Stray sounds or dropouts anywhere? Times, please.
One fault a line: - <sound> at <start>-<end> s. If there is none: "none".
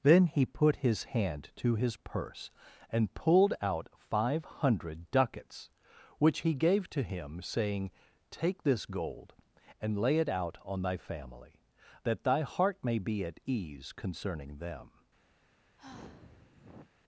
- sigh at 15.8-16.9 s